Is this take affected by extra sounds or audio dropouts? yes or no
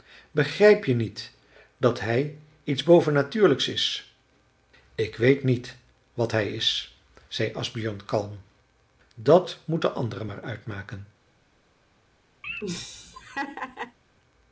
yes